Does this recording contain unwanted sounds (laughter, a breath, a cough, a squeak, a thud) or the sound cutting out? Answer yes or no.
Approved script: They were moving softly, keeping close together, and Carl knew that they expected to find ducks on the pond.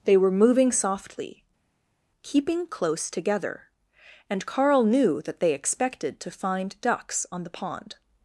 no